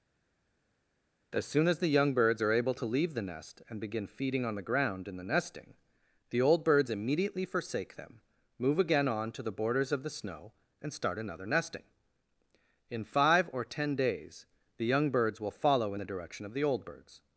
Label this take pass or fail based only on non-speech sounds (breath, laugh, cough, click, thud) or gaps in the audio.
pass